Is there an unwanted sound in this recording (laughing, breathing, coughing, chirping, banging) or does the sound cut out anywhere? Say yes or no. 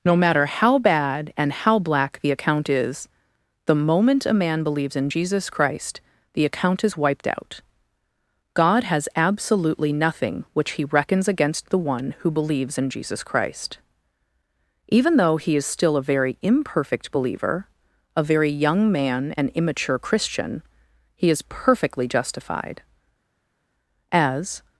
no